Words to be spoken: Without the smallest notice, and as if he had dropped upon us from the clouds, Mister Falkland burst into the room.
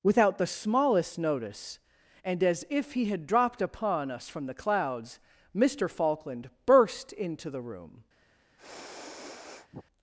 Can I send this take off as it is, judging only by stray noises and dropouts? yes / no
no